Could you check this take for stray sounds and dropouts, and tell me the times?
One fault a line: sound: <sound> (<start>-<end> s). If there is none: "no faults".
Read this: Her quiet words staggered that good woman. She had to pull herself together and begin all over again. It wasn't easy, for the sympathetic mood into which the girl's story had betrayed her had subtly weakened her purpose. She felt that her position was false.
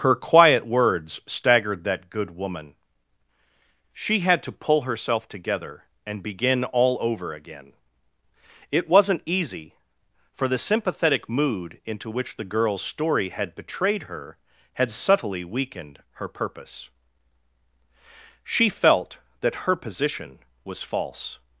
no faults